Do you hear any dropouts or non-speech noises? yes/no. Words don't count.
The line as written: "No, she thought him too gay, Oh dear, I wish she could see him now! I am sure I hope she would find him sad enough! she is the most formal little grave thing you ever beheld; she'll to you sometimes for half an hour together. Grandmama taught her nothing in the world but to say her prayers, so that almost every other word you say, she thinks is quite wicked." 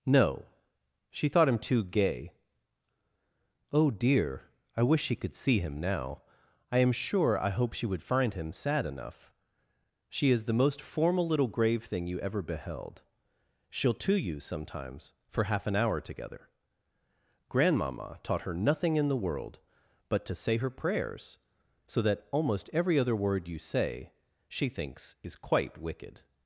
no